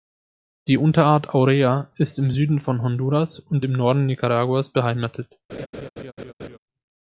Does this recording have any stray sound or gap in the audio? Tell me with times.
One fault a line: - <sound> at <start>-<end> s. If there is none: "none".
- laugh at 5.5-6.6 s